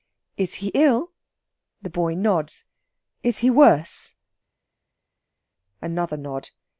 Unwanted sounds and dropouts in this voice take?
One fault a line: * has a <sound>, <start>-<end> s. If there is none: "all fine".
all fine